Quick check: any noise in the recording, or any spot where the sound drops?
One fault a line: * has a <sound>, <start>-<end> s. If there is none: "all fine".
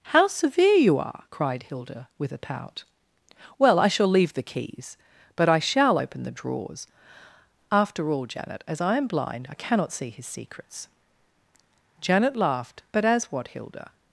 all fine